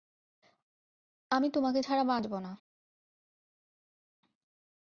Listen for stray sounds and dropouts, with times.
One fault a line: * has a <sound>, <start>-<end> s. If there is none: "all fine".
all fine